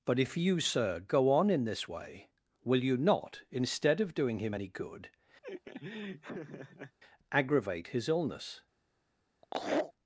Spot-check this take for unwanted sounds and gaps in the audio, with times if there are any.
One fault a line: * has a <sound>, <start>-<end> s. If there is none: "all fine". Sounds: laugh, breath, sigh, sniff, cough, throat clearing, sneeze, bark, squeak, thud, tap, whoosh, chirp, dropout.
* has a laugh, 5.4-7.0 s
* has a laugh, 9.4-9.9 s